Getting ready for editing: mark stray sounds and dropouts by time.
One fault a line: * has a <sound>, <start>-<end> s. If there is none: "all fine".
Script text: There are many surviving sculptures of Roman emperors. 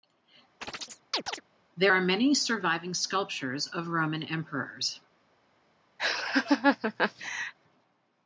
* has a chirp, 0.6-1.4 s
* has a laugh, 6.0-7.5 s